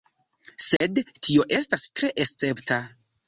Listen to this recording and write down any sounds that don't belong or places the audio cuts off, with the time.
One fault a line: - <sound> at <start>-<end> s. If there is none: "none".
- dropout at 0.8-0.8 s